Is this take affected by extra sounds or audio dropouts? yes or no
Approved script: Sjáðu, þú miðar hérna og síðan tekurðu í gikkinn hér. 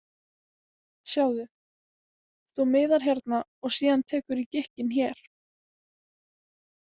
no